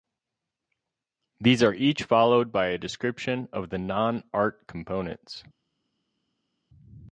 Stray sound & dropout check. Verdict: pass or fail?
pass